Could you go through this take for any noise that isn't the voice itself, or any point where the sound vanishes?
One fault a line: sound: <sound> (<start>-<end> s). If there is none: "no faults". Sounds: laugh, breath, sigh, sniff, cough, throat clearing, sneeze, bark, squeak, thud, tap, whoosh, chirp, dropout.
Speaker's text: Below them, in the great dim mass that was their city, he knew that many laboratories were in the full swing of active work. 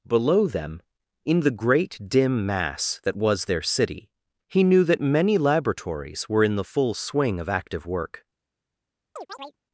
sound: chirp (9.2-9.6 s)